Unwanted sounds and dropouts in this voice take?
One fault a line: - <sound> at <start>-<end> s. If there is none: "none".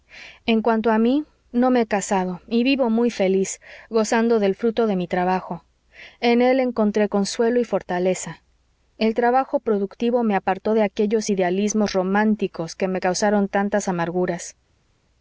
none